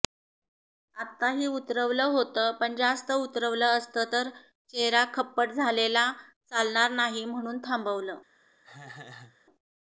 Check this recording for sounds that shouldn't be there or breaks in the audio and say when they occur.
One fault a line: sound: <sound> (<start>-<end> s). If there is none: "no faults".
sound: laugh (8.6-9.4 s)